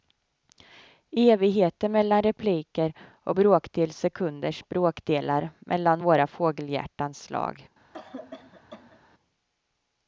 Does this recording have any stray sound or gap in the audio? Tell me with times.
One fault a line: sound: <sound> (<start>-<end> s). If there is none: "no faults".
sound: cough (7.9-9.0 s)